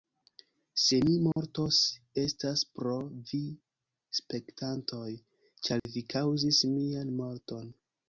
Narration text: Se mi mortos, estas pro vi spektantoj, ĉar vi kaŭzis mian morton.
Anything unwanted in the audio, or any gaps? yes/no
yes